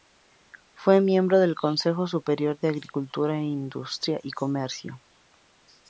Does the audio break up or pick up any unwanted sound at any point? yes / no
no